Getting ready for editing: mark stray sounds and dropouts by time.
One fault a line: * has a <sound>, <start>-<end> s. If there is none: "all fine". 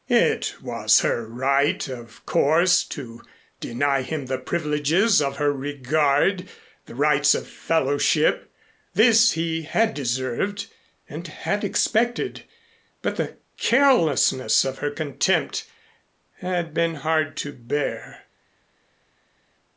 all fine